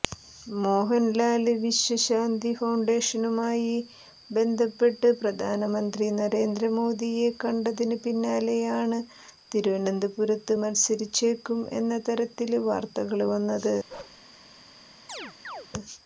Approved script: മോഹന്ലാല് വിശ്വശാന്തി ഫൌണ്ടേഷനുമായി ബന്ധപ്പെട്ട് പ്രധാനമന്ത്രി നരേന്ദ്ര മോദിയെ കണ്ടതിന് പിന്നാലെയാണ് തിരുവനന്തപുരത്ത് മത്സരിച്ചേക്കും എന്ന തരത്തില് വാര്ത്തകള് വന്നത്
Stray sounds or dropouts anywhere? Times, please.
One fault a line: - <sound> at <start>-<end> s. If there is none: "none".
- bark at 13.9-14.2 s
- chirp at 15.1-15.7 s